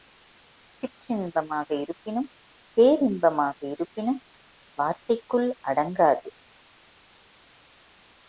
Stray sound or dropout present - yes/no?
no